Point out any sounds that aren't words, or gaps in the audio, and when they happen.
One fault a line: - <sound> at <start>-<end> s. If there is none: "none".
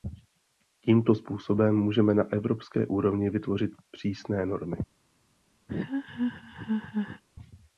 - laugh at 5.7-7.2 s